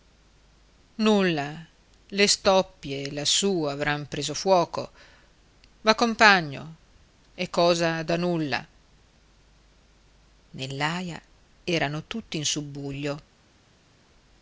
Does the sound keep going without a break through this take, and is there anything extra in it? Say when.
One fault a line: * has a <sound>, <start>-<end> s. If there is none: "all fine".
all fine